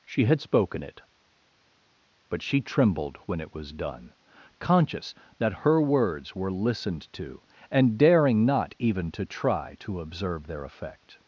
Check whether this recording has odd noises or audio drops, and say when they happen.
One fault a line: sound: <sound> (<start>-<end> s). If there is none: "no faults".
no faults